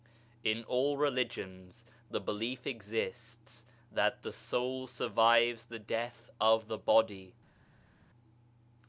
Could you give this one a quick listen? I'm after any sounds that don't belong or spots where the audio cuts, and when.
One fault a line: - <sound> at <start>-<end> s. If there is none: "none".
none